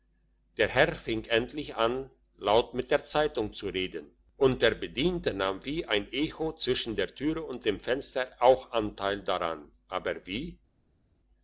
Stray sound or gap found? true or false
false